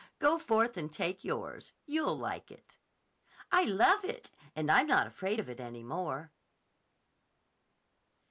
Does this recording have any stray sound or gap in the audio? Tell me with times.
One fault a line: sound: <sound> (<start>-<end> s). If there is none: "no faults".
no faults